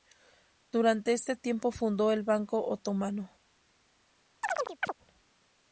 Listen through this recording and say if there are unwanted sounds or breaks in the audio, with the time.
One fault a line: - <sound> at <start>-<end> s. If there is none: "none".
- chirp at 4.4-4.9 s